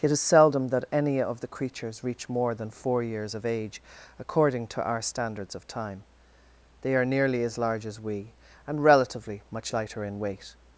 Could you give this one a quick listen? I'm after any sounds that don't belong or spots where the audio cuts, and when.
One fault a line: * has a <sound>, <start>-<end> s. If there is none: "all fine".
all fine